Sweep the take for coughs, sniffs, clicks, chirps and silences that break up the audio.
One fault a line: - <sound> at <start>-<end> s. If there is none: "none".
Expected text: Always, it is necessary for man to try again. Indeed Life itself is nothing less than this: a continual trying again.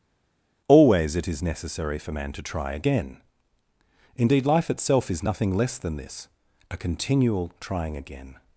none